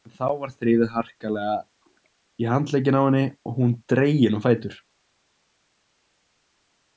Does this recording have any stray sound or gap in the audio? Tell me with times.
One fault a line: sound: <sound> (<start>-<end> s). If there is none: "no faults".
no faults